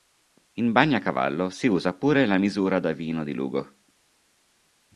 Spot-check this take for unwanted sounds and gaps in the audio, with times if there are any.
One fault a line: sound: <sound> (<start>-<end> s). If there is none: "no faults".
no faults